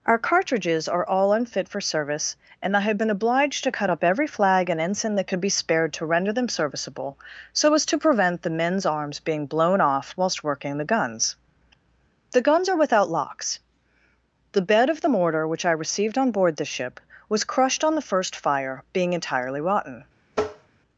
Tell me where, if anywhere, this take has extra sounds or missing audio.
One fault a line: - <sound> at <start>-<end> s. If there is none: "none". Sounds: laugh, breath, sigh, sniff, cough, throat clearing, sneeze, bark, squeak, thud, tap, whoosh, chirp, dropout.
- tap at 20.3-20.7 s